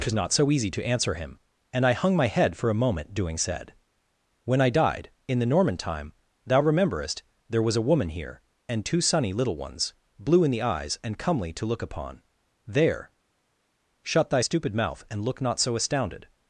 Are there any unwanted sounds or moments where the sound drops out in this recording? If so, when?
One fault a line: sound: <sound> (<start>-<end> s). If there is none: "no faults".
no faults